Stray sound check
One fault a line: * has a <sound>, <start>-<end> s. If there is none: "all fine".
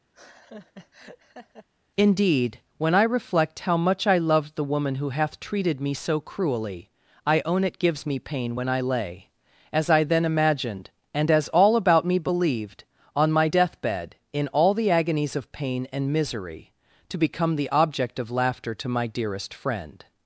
* has a laugh, 0.1-1.7 s